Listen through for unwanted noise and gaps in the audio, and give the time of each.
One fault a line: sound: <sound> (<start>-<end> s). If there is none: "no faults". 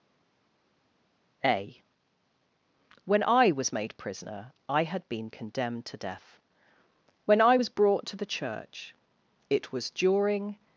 no faults